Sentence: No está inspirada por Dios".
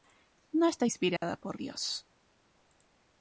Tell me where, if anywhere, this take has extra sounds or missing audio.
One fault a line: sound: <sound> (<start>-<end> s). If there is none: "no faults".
sound: dropout (1.2-1.2 s)